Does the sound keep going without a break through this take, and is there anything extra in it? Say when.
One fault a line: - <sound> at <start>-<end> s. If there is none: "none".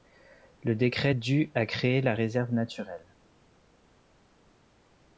none